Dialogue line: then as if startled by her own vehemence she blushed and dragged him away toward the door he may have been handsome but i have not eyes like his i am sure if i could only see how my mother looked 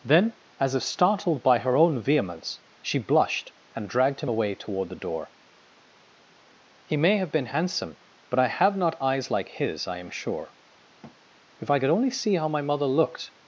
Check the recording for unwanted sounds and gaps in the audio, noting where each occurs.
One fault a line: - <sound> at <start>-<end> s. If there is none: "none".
- thud at 11.0-11.2 s